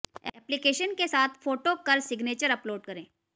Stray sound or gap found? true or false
false